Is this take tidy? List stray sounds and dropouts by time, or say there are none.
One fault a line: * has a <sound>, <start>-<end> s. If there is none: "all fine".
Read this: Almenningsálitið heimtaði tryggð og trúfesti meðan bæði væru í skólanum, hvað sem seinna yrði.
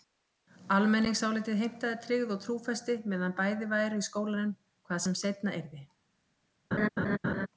* has a laugh, 6.7-7.5 s